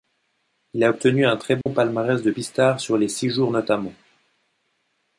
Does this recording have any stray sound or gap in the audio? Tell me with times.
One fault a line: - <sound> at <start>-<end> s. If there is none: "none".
- dropout at 1.6-1.7 s